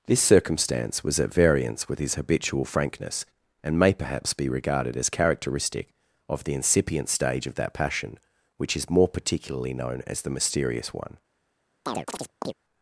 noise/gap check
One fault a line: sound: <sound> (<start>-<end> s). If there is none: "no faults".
sound: chirp (11.9-12.5 s)